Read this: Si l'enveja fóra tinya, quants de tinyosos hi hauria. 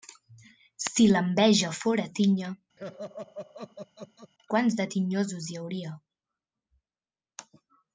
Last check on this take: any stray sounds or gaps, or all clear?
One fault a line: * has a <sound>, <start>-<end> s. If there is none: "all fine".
* has a laugh, 2.8-4.3 s